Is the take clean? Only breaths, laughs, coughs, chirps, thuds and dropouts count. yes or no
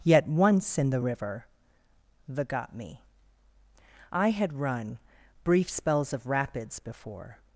yes